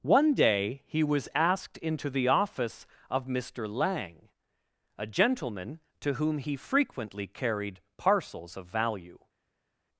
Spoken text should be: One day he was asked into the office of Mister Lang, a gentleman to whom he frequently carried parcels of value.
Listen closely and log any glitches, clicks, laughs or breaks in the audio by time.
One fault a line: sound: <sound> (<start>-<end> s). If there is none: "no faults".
no faults